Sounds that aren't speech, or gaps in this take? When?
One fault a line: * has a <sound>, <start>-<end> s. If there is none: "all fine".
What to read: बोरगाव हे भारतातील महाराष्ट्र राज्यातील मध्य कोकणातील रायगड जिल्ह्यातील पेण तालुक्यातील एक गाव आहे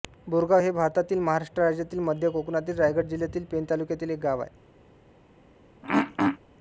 * has a throat clearing, 5.8-6.4 s